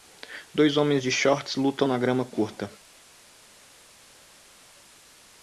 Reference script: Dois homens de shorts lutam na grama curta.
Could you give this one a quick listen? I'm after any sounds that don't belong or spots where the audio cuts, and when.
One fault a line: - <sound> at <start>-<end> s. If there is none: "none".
none